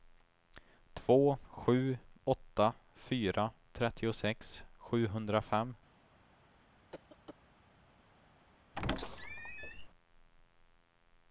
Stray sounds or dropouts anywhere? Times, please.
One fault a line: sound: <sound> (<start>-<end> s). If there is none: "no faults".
sound: cough (6.9-7.3 s)
sound: squeak (8.8-9.9 s)